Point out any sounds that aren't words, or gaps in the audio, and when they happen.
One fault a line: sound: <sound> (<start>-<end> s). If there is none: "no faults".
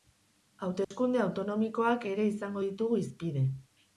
sound: dropout (0.8-0.9 s)